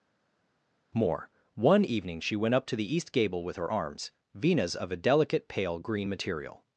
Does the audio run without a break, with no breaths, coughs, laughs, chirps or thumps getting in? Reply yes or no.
yes